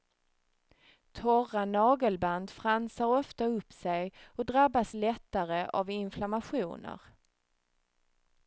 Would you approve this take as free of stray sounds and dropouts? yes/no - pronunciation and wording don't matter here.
yes